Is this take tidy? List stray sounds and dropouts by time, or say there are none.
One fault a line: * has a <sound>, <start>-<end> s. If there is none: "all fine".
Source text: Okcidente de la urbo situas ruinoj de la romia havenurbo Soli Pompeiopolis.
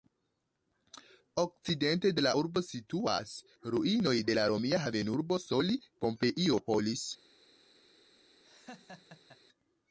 * has a laugh, 8.4-9.4 s